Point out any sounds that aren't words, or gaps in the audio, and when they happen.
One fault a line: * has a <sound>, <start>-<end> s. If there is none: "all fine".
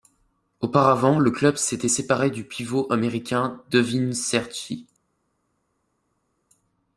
all fine